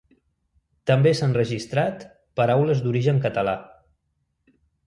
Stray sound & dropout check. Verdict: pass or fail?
pass